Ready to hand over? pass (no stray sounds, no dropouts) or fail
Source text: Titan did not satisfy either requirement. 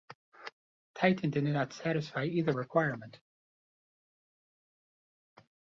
pass